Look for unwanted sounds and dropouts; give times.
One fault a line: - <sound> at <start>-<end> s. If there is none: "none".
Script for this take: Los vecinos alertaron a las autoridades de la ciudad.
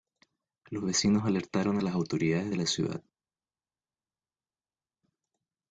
none